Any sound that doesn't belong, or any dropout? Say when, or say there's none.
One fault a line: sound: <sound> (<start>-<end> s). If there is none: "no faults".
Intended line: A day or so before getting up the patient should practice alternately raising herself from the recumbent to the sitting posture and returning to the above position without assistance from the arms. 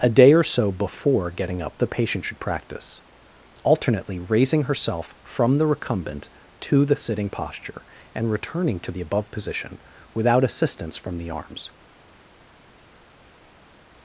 no faults